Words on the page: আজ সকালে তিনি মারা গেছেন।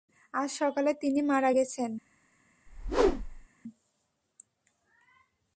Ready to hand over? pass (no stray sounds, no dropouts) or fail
fail